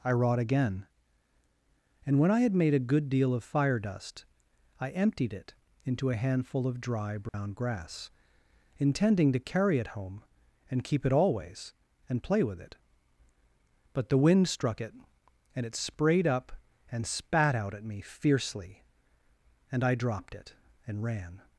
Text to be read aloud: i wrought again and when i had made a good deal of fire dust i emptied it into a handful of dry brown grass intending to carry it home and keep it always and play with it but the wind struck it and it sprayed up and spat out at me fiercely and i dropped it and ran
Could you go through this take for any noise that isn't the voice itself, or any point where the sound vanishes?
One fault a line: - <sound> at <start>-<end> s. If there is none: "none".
- dropout at 7.3-7.3 s